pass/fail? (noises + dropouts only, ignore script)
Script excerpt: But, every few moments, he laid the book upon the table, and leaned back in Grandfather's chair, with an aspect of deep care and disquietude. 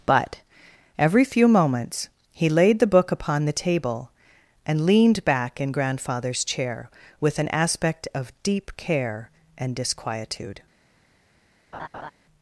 fail